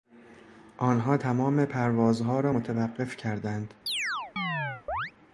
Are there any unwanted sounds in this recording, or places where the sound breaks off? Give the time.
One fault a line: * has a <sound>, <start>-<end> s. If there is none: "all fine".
* has a chirp, 3.9-5.1 s